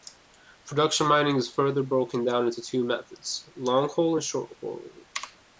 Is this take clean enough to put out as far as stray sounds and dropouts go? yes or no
yes